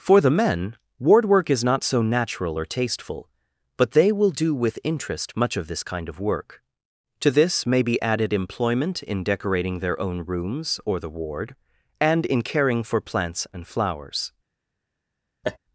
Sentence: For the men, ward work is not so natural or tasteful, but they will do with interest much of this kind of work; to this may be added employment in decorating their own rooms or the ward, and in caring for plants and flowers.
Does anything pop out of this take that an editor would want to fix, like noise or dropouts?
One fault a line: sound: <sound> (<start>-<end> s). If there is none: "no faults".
sound: laugh (15.4-15.6 s)